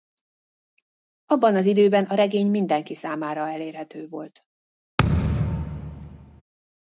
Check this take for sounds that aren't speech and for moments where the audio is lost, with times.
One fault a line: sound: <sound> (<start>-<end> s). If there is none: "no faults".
sound: thud (5.0-6.4 s)